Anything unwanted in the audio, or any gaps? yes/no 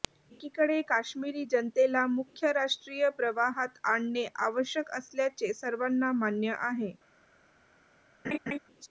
yes